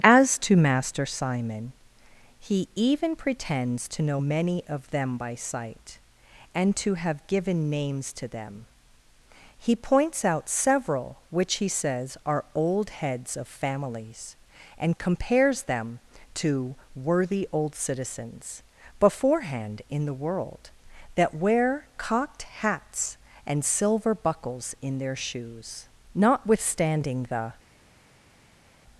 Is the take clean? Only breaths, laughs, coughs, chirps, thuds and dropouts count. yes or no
yes